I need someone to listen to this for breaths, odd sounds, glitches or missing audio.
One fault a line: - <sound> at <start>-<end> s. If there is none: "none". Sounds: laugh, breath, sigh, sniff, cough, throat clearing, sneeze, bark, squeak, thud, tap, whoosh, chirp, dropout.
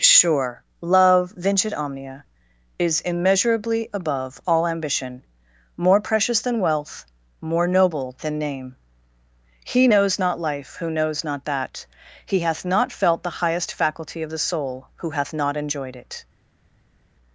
none